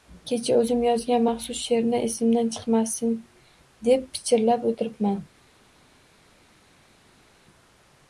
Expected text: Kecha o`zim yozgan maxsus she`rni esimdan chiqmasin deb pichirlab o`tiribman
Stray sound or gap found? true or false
false